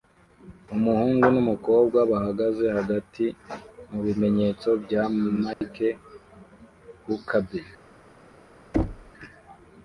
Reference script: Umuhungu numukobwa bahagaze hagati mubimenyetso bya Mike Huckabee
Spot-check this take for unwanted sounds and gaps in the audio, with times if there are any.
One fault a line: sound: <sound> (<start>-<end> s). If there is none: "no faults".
sound: dropout (5.5-5.6 s)
sound: thud (8.7-9.1 s)